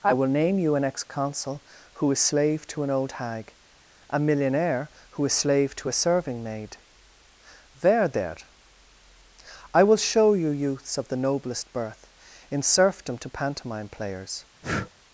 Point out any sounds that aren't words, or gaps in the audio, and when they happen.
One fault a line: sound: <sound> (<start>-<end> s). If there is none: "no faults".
sound: breath (14.6-14.9 s)